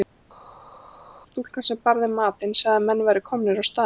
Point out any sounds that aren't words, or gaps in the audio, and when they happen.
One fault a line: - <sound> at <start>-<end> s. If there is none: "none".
none